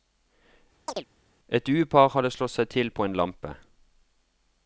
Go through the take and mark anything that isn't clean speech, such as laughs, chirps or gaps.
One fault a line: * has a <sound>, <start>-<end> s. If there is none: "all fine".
* has a chirp, 0.9-1.1 s